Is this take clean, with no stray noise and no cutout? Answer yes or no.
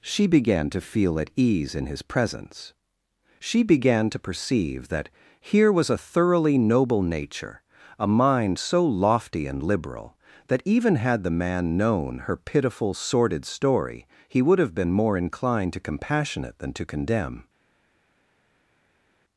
yes